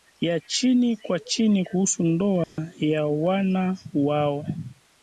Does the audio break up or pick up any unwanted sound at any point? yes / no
yes